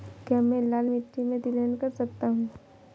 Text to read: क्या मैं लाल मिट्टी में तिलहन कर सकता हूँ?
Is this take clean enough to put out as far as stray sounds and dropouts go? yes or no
yes